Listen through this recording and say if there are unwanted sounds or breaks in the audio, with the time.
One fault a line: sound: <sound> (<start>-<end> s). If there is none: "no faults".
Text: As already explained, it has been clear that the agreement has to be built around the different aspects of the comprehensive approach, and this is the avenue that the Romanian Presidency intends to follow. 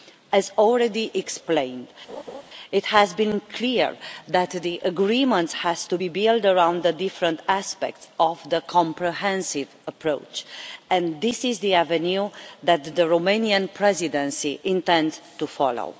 sound: laugh (2.1-2.4 s)